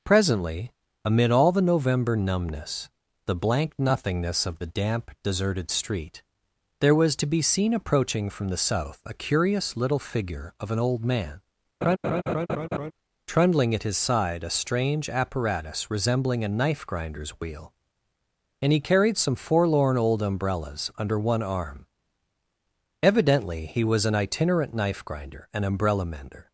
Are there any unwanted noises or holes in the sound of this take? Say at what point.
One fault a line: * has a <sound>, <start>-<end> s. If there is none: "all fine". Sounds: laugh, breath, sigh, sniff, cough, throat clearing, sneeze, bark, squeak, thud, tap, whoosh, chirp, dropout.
* has a laugh, 11.8-12.9 s